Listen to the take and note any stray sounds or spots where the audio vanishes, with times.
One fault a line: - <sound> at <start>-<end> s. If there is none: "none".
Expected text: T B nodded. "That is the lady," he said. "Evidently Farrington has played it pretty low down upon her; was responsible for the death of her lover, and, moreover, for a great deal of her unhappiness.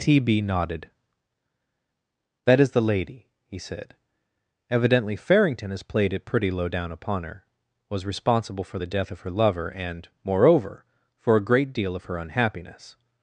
none